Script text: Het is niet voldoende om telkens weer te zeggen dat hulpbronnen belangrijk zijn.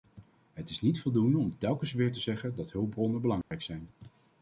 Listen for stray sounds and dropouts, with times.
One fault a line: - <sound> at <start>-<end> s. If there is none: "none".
- dropout at 3.4-3.5 s